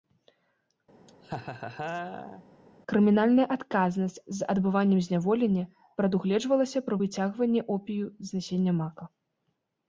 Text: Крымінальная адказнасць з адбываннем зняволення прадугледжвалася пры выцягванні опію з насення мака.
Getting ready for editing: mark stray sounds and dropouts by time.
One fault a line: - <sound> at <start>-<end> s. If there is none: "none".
- laugh at 1.1-2.4 s